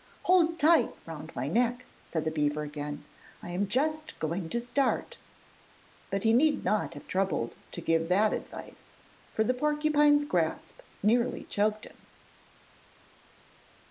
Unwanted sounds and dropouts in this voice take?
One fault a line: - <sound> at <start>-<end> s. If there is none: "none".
none